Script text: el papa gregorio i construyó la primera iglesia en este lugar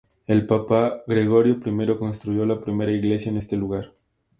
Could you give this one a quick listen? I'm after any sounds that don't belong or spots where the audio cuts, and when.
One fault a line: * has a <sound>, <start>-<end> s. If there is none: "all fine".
all fine